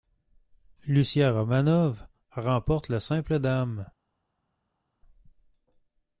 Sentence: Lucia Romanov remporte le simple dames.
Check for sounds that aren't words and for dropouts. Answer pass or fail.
pass